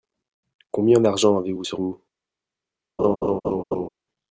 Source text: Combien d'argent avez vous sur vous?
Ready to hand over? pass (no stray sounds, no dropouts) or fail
fail